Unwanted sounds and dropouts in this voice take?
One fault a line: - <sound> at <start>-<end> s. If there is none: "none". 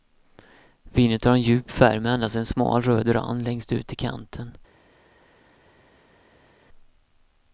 none